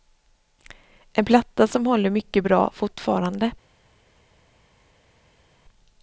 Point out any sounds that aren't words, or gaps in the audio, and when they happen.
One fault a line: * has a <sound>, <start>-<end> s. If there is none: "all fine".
all fine